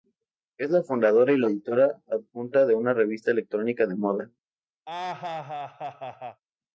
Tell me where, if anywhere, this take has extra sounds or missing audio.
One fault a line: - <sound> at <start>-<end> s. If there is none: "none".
- laugh at 4.9-6.4 s